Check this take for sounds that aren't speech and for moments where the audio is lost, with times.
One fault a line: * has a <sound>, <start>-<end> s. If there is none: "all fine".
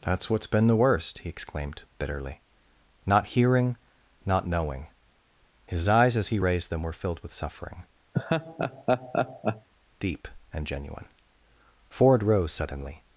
* has a laugh, 8.1-9.7 s